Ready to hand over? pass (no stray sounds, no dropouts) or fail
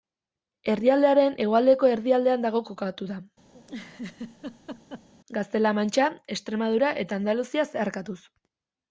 fail